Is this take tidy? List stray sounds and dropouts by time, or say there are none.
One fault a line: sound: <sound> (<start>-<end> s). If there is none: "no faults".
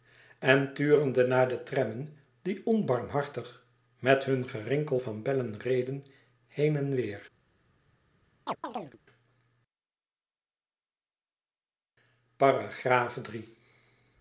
sound: chirp (8.5-9.0 s)